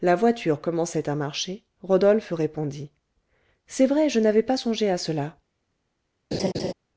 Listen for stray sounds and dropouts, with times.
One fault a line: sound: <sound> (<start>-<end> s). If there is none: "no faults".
sound: laugh (6.3-6.7 s)